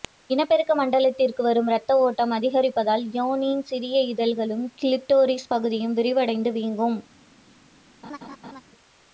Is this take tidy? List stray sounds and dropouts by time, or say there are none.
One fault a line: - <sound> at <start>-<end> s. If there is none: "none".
- laugh at 8.0-8.6 s